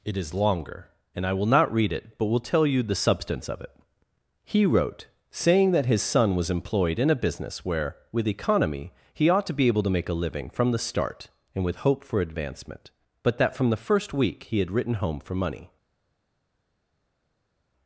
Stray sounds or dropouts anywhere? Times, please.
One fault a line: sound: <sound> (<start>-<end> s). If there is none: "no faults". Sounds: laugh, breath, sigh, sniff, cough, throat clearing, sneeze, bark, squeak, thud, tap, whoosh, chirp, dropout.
no faults